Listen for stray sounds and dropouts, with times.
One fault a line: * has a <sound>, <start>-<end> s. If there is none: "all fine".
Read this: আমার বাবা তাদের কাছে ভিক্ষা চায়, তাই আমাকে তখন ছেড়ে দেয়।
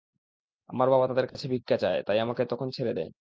* has a dropout, 1.3-1.3 s